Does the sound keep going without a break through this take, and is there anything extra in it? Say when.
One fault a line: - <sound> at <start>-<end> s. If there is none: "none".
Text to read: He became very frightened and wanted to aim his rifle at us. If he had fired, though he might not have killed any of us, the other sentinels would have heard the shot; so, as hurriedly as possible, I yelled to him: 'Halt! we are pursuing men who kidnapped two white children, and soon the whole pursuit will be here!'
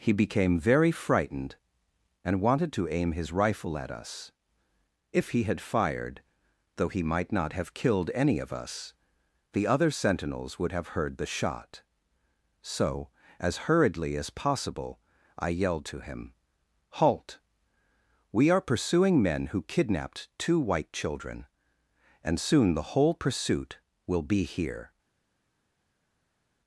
none